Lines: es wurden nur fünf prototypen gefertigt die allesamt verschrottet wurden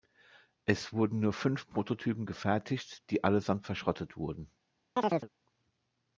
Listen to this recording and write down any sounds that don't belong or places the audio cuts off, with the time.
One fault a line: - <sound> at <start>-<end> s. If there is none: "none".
- chirp at 5.0-5.3 s